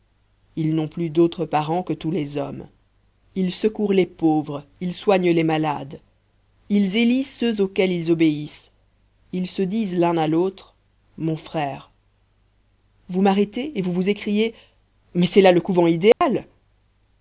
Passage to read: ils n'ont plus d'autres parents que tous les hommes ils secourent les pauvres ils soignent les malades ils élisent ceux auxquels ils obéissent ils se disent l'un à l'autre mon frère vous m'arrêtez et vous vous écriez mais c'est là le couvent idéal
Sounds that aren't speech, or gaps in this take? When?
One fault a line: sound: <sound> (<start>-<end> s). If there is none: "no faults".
sound: dropout (16.1-16.2 s)